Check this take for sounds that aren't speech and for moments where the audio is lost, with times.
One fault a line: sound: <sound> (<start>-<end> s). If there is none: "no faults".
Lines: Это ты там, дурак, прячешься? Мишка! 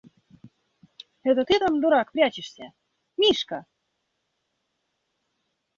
no faults